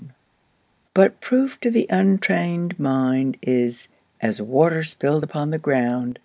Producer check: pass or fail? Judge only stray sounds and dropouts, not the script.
pass